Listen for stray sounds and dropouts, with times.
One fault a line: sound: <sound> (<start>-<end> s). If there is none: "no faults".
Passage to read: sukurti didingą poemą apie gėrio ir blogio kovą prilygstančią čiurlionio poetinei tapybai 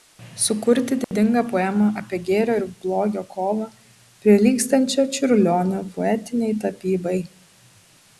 sound: dropout (1.0-1.1 s)